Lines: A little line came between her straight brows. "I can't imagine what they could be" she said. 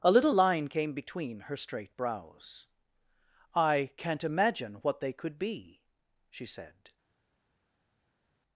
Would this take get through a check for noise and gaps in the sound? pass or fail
pass